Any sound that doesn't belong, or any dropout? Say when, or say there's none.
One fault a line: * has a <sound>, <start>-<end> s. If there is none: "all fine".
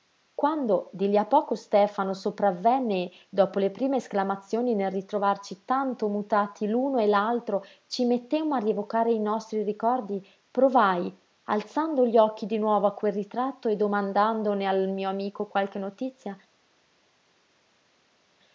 all fine